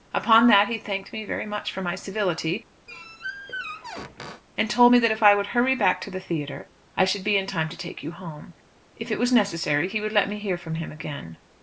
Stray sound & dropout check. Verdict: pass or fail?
fail